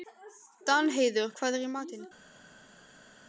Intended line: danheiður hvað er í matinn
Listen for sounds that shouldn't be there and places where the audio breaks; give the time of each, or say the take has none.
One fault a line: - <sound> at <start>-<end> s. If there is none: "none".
none